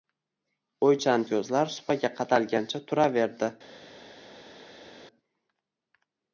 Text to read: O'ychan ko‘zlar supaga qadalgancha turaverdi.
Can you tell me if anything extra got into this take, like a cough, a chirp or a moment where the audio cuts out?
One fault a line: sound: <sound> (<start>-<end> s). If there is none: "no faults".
no faults